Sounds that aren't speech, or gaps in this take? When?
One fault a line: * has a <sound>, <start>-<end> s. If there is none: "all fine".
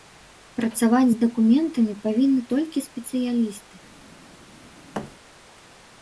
* has a thud, 4.9-5.1 s